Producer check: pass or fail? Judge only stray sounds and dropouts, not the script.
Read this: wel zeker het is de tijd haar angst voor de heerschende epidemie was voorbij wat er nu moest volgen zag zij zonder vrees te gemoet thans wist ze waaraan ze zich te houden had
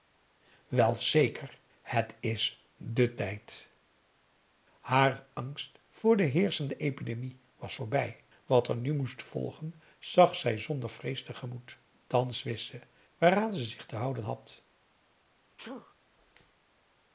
fail